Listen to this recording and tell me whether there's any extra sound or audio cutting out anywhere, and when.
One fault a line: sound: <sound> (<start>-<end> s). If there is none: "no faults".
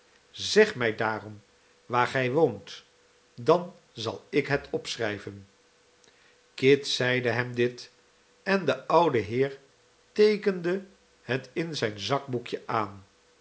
no faults